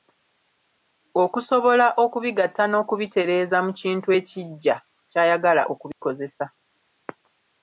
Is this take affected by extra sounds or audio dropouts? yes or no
yes